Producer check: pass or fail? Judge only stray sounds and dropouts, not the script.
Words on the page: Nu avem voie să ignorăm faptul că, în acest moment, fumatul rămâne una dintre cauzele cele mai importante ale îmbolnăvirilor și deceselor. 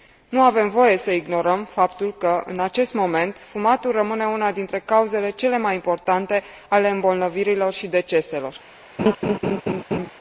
fail